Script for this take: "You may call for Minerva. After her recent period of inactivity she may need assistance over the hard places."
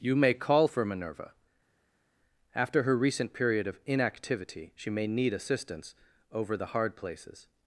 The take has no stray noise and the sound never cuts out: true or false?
true